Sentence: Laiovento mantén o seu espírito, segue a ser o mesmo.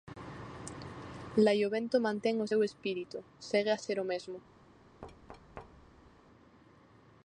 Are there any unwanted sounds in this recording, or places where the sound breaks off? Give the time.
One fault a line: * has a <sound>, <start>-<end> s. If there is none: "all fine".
* has a thud, 5.0-6.1 s